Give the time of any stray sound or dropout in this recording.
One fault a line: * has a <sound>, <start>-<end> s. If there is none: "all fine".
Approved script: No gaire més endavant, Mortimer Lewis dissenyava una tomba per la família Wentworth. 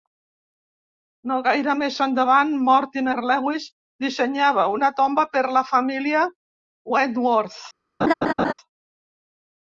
* has a laugh, 8.0-8.5 s